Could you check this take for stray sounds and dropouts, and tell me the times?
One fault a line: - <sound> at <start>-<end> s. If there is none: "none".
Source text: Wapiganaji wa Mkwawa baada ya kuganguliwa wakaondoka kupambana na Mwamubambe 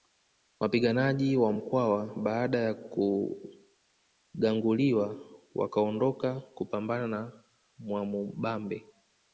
none